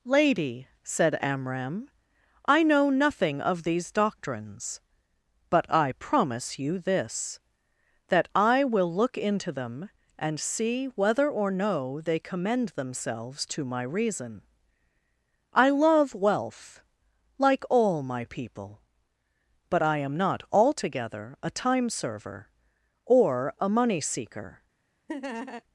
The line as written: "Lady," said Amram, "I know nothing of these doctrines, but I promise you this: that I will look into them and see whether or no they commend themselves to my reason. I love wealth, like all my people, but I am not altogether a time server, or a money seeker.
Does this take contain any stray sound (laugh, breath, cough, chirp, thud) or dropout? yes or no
yes